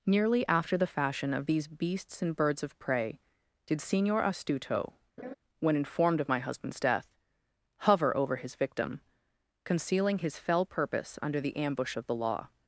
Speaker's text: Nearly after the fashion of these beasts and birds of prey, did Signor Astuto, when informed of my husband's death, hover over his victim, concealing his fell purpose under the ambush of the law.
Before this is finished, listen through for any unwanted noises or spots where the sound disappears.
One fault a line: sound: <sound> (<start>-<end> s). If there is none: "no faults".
sound: laugh (5.2-5.3 s)